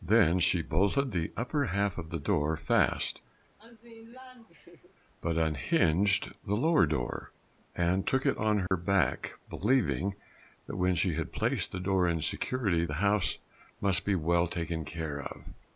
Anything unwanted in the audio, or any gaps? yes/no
yes